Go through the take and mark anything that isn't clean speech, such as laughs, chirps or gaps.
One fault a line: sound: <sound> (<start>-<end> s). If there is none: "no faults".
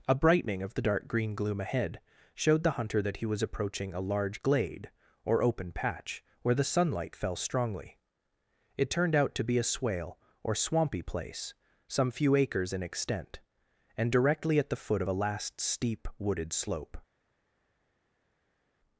no faults